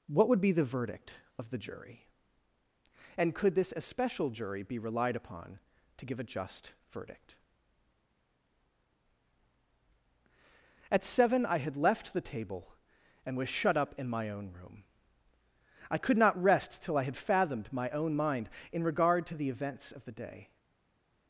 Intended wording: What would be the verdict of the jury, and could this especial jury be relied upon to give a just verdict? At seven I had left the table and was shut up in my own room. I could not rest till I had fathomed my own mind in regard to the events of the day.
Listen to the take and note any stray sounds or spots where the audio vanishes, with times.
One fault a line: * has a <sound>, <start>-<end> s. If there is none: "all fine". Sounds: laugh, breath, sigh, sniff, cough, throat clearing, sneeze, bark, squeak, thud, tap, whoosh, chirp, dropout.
all fine